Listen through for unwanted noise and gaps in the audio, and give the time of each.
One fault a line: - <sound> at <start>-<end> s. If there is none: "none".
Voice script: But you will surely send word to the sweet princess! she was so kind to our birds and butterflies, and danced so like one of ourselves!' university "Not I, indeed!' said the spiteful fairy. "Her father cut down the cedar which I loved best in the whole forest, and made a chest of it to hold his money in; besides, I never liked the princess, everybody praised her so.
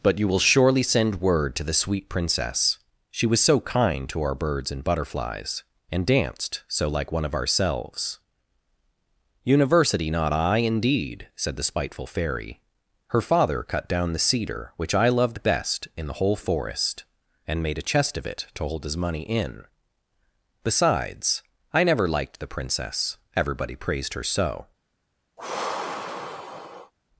- sigh at 25.4-26.9 s